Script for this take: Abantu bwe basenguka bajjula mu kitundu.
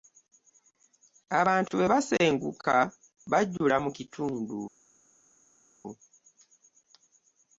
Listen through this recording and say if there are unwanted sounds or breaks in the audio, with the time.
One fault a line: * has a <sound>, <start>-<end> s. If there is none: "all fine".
all fine